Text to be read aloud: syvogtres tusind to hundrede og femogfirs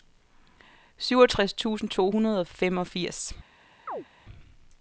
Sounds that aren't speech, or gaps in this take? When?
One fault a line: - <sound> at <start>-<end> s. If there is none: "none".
- chirp at 3.9-4.1 s